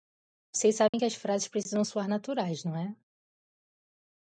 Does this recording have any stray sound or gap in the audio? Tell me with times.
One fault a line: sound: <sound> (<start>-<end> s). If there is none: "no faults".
sound: dropout (0.9-0.9 s)